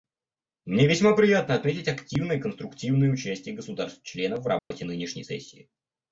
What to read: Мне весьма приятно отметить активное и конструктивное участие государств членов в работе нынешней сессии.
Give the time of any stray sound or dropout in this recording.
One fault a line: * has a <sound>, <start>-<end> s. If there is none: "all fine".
* has a dropout, 4.6-4.7 s